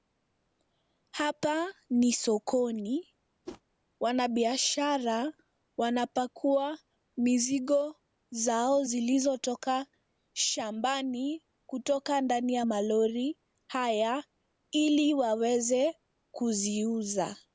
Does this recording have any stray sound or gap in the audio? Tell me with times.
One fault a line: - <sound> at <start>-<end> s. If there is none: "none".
- whoosh at 3.5-3.6 s